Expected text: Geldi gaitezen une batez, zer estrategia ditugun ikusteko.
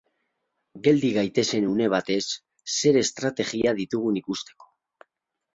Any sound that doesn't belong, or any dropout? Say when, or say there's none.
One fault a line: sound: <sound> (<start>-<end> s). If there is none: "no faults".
no faults